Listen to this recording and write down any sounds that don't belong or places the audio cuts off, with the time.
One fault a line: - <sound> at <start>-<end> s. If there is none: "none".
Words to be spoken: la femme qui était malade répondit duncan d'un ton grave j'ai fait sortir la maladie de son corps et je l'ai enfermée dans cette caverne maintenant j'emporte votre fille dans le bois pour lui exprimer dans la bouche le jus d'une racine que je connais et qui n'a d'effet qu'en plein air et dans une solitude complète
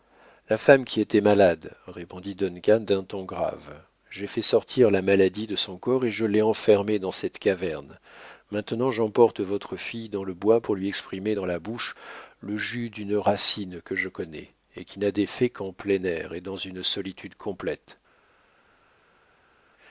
none